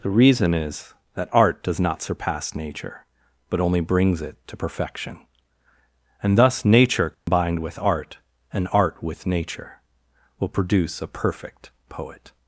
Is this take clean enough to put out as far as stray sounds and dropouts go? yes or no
no